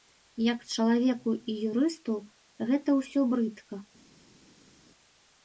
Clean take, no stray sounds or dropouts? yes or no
yes